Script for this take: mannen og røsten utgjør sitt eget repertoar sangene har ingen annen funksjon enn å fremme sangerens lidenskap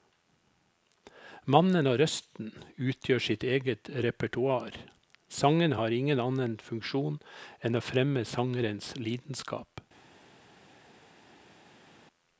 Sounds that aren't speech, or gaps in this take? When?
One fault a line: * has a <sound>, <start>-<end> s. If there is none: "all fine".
all fine